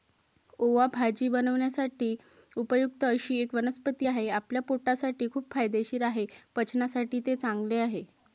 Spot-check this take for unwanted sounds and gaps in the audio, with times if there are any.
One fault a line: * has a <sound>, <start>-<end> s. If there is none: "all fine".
all fine